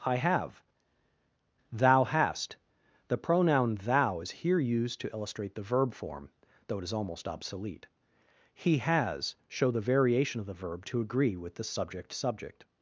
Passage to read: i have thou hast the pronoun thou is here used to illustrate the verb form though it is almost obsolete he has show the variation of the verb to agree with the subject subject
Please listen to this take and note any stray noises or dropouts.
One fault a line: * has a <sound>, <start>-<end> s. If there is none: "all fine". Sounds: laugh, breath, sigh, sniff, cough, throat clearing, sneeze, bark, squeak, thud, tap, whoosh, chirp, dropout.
all fine